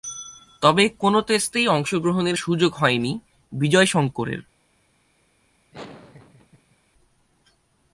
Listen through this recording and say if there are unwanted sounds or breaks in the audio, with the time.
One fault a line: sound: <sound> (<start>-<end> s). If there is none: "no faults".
sound: laugh (5.7-6.8 s)